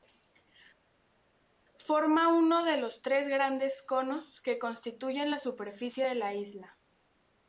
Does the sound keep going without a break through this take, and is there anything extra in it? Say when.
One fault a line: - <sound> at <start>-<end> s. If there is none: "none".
none